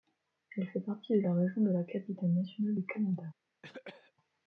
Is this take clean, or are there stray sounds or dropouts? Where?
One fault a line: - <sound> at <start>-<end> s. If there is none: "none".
- cough at 3.6-4.1 s